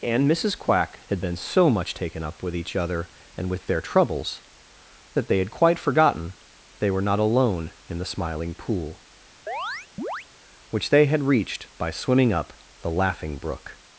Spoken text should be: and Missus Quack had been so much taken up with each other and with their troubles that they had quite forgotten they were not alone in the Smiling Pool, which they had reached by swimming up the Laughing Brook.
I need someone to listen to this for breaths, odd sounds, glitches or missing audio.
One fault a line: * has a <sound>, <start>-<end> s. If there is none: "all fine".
* has a chirp, 9.5-10.3 s